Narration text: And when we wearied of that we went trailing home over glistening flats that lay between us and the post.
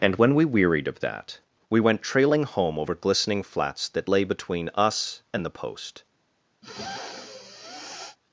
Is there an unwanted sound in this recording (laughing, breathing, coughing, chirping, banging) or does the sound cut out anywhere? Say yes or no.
yes